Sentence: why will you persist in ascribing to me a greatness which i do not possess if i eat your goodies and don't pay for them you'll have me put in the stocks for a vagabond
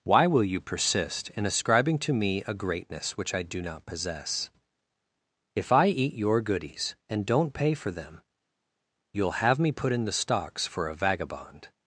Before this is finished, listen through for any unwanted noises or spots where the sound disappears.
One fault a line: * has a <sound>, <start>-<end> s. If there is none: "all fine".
all fine